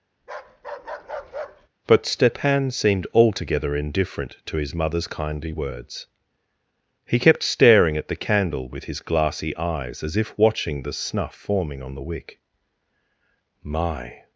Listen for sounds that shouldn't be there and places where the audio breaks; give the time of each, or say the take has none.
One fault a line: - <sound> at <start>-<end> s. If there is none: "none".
- bark at 0.2-1.7 s